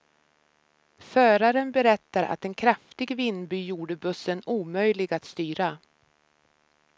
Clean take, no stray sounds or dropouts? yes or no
yes